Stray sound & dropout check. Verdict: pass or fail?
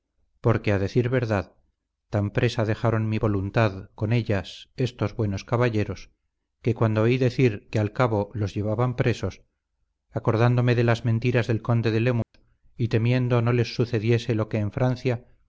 fail